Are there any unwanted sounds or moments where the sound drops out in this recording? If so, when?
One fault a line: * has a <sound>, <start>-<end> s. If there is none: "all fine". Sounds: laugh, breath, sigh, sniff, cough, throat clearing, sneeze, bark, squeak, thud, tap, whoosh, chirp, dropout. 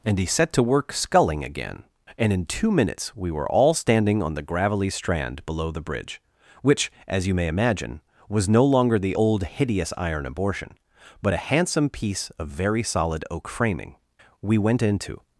all fine